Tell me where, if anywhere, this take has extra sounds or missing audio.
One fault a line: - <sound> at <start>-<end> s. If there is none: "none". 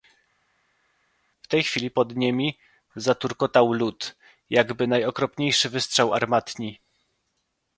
none